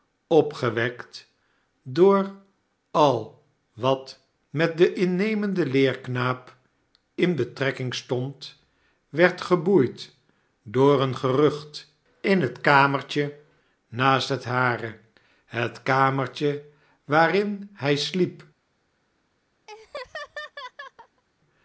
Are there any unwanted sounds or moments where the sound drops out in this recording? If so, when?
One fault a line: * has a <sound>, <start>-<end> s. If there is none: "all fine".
* has a laugh, 19.7-21.2 s